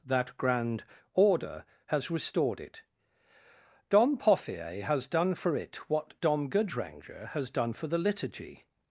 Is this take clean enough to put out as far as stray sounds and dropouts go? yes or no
yes